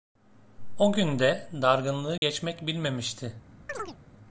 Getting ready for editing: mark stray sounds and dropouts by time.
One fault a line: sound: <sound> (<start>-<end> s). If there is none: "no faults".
sound: dropout (2.2-2.2 s)
sound: chirp (3.7-4.0 s)